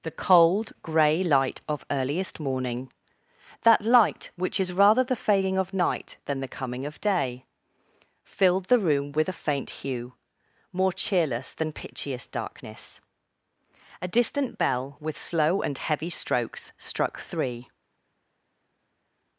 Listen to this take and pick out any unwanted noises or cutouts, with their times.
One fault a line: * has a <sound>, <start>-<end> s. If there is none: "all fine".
all fine